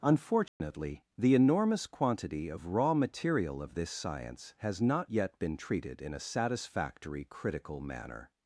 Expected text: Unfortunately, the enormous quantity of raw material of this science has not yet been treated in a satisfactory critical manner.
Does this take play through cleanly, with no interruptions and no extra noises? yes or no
no